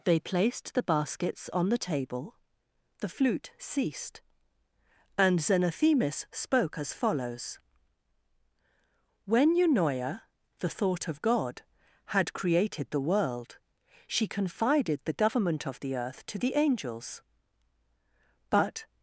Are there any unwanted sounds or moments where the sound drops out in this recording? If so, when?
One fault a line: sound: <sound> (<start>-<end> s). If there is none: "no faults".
no faults